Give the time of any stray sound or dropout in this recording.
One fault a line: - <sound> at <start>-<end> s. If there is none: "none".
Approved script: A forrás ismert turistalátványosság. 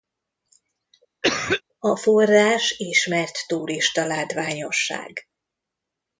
- cough at 1.2-1.6 s